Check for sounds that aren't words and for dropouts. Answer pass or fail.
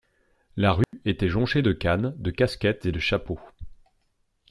fail